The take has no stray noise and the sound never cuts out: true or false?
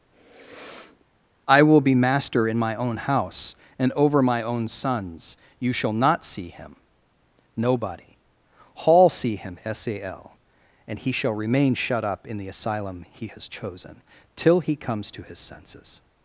false